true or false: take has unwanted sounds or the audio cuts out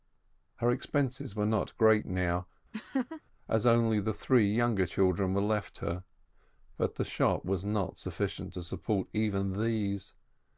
true